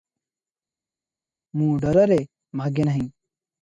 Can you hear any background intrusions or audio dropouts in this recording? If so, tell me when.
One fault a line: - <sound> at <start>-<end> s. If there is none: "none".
none